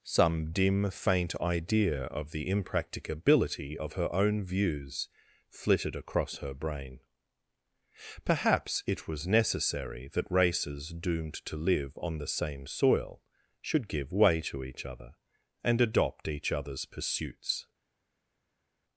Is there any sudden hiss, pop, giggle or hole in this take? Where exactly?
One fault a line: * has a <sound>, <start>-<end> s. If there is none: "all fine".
all fine